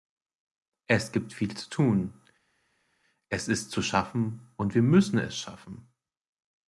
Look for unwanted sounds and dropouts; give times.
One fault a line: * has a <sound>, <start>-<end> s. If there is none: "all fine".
all fine